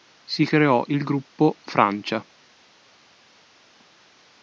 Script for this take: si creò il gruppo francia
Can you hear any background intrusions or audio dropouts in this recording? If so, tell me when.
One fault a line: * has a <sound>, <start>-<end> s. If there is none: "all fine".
all fine